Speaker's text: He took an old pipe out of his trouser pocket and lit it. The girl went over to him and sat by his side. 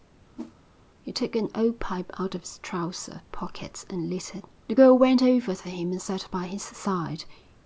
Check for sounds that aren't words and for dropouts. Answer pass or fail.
fail